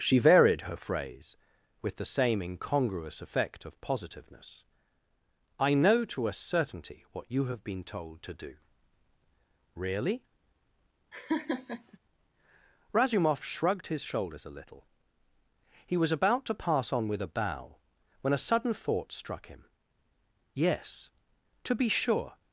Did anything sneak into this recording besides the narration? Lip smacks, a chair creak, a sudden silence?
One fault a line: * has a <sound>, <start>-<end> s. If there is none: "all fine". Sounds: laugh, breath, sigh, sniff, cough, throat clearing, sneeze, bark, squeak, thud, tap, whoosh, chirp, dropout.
* has a laugh, 11.1-12.0 s